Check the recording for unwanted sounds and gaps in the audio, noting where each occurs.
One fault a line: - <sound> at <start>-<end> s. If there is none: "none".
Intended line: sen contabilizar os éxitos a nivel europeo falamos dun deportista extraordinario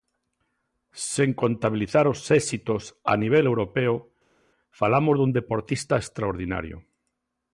none